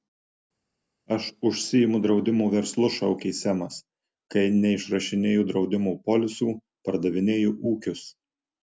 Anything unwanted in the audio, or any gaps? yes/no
no